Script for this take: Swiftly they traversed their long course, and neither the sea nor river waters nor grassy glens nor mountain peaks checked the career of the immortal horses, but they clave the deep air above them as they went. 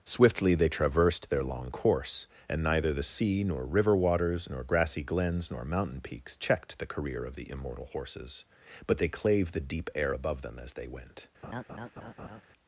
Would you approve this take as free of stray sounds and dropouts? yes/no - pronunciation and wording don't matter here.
no